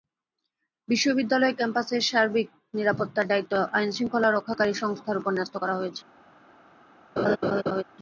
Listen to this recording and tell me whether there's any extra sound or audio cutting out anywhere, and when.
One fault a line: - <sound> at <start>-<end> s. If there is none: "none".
- laugh at 7.2-7.8 s